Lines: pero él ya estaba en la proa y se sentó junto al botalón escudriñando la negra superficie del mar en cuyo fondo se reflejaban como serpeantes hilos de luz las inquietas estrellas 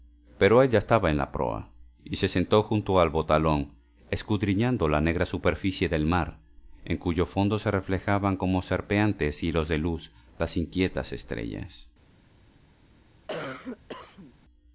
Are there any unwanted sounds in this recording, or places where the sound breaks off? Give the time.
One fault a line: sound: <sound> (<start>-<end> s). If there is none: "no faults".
sound: cough (13.3-14.3 s)